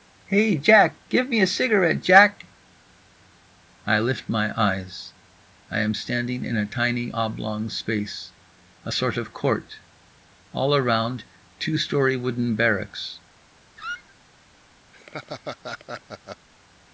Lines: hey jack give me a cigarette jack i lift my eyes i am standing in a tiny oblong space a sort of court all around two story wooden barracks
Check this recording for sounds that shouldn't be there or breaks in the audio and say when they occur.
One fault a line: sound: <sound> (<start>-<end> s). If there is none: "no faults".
sound: squeak (13.8-14.2 s)
sound: laugh (14.9-16.5 s)